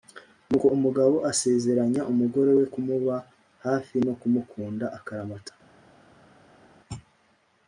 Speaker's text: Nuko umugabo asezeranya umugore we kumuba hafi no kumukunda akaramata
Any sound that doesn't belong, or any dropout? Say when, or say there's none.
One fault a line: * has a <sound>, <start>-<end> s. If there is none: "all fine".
all fine